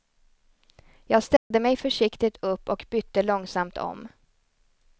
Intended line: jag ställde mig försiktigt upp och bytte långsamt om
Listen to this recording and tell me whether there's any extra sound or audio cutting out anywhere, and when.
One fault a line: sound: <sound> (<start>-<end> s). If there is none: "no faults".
sound: dropout (1.4-1.5 s)